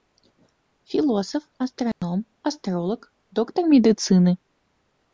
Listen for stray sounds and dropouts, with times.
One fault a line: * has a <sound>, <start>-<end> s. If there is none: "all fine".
* has a dropout, 1.9-2.0 s